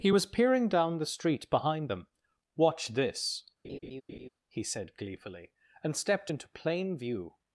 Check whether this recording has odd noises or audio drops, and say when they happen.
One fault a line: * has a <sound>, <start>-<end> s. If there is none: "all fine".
* has a laugh, 3.6-4.3 s